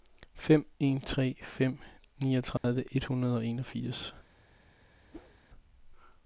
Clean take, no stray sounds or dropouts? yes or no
no